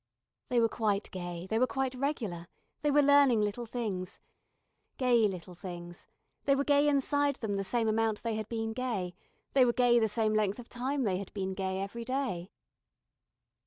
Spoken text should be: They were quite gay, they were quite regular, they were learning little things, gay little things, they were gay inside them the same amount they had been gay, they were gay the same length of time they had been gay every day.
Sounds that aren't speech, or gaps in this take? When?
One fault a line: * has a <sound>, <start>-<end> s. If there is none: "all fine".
all fine